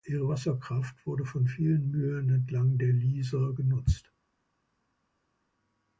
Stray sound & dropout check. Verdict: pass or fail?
pass